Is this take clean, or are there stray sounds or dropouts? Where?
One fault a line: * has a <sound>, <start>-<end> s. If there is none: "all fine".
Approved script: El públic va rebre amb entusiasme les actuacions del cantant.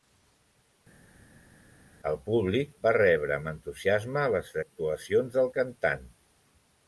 all fine